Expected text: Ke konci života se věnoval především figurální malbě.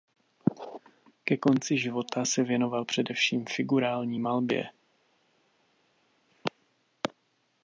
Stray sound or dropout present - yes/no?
no